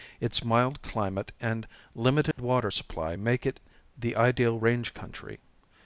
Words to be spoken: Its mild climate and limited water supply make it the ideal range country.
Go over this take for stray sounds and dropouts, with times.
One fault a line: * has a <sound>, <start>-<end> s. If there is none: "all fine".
* has a dropout, 2.3-2.4 s